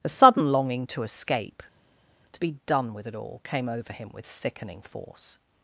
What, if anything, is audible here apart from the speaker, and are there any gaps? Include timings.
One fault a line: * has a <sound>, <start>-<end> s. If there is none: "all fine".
all fine